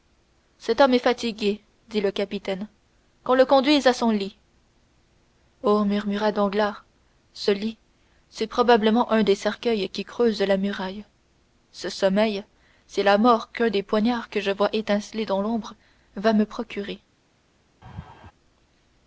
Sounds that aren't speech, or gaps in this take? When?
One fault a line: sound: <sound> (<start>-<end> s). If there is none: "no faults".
sound: laugh (17.8-18.3 s)